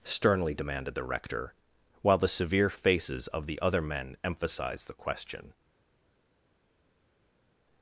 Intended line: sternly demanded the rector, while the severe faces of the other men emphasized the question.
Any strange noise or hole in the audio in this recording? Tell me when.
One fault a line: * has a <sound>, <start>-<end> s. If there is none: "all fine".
all fine